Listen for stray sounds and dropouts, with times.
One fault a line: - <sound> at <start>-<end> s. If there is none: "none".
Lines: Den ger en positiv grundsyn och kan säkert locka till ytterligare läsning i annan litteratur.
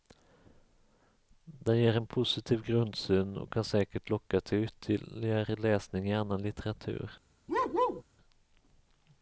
- bark at 7.5-8.0 s